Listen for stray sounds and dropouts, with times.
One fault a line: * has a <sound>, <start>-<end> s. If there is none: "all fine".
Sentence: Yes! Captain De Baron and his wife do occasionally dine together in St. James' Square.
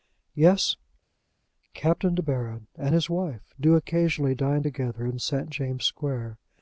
all fine